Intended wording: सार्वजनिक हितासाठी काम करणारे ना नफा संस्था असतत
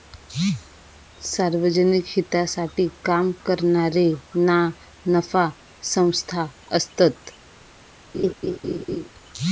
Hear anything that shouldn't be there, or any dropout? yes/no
yes